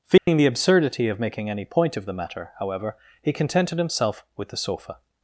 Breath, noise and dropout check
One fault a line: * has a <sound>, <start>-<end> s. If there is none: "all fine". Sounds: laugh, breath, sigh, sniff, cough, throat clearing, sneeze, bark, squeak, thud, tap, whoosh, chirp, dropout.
* has a dropout, 0.2-0.3 s